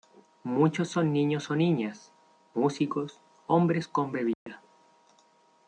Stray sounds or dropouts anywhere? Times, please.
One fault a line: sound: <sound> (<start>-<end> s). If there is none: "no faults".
sound: dropout (4.3-4.5 s)